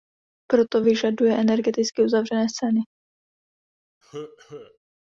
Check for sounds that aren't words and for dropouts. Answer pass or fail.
fail